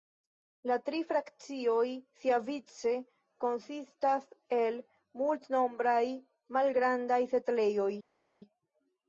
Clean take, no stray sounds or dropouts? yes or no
yes